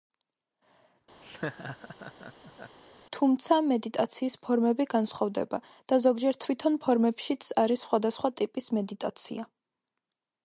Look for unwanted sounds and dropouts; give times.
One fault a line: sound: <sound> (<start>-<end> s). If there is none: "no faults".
sound: laugh (1.2-2.8 s)